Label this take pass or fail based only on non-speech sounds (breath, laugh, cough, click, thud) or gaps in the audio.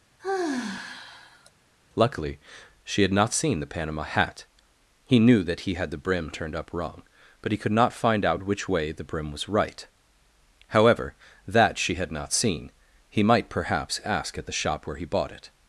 fail